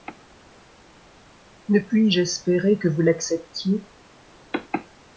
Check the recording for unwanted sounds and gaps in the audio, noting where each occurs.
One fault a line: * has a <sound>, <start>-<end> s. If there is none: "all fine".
all fine